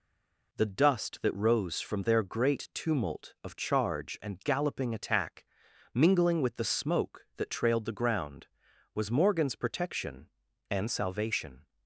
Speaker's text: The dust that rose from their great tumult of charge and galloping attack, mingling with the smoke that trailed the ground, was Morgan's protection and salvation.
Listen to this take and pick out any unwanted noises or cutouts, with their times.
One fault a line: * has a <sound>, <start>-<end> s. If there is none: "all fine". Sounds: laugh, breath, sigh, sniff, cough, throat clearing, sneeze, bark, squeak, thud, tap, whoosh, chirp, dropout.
all fine